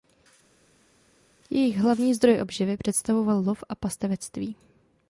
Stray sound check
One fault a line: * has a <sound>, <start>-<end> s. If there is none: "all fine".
all fine